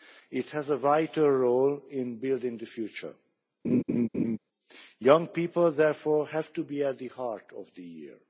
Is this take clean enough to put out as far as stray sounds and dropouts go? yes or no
no